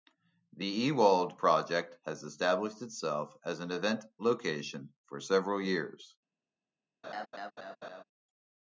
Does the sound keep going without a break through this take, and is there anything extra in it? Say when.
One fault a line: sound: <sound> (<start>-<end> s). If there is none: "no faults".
sound: laugh (7.0-8.0 s)